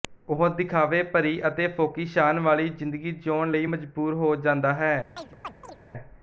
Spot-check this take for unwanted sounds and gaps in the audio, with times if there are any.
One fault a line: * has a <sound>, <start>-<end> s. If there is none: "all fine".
* has a chirp, 5.2-5.8 s